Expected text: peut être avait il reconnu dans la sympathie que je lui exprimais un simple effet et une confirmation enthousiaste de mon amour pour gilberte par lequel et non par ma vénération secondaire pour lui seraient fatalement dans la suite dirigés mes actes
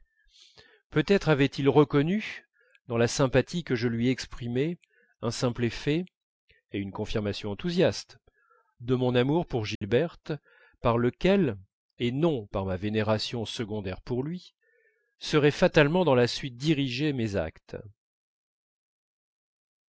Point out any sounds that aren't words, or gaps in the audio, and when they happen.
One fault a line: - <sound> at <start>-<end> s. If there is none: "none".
- dropout at 9.8-9.8 s